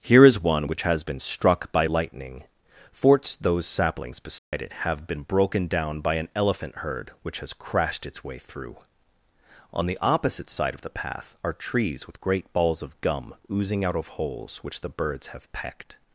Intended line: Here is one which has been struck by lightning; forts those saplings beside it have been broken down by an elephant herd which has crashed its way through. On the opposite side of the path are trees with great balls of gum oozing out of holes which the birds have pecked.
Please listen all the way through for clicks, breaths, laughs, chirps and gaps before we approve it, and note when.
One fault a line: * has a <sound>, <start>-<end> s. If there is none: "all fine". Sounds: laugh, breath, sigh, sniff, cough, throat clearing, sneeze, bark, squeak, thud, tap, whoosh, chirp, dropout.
* has a dropout, 4.4-4.5 s